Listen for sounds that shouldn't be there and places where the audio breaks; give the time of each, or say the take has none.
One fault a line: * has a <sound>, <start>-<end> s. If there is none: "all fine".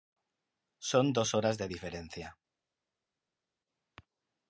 all fine